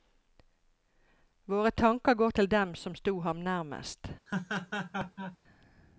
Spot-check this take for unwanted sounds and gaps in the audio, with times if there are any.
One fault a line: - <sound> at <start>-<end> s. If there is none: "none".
- laugh at 4.3-5.4 s